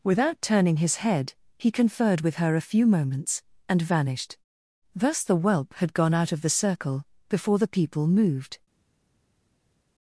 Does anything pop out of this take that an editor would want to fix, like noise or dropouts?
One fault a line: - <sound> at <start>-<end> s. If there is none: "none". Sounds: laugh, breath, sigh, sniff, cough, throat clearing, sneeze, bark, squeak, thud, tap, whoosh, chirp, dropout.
none